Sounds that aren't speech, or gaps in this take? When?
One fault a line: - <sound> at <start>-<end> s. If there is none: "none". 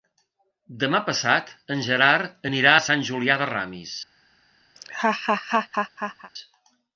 - laugh at 4.8-6.3 s